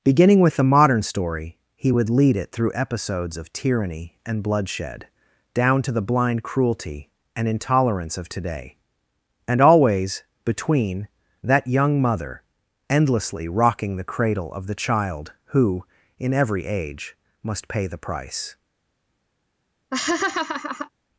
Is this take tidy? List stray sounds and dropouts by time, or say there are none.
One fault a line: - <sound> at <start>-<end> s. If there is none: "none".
- laugh at 19.9-20.9 s